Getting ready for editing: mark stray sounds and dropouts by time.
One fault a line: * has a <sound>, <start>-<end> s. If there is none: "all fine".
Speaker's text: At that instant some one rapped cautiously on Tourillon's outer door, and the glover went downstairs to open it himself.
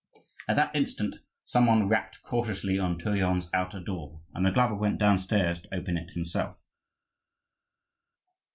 all fine